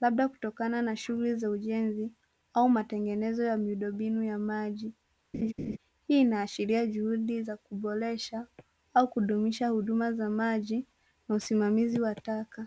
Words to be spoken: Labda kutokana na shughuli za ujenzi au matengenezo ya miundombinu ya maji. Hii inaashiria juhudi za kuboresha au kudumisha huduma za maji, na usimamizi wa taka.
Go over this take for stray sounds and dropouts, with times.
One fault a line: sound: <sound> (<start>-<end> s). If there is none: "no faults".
sound: laugh (5.3-5.8 s)